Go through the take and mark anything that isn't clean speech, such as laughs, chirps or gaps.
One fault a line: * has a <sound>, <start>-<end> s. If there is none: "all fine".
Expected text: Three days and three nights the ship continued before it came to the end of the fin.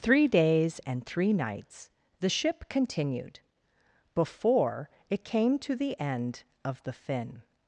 all fine